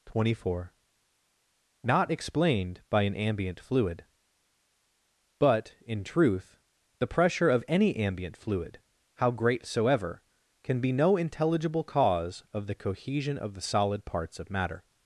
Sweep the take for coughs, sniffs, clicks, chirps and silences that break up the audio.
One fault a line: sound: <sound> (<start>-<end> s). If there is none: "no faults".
no faults